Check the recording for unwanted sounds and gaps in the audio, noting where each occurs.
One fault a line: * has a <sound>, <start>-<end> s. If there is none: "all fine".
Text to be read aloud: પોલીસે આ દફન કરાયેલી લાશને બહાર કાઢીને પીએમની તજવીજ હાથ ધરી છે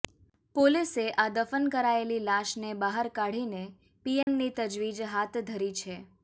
* has a dropout, 4.2-4.3 s